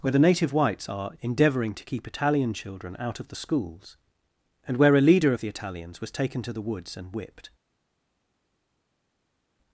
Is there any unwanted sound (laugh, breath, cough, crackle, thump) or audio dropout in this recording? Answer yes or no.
no